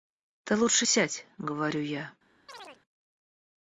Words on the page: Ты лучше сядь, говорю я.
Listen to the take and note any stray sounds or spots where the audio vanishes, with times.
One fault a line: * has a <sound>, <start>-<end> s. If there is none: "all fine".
* has a chirp, 2.5-2.8 s